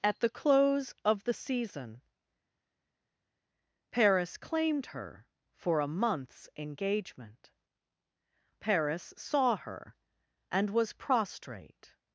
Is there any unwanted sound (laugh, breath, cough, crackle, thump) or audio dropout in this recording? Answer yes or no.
no